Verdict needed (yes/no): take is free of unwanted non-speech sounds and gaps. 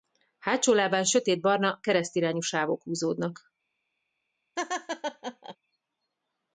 no